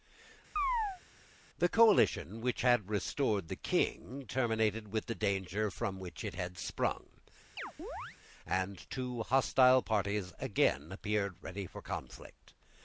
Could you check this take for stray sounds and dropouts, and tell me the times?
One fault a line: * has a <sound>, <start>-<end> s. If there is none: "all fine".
* has a chirp, 0.6-1.0 s
* has a chirp, 7.6-8.2 s